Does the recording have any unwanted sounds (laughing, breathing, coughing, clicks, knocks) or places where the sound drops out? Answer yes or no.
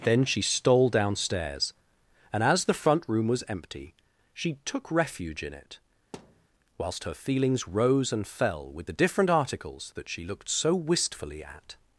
yes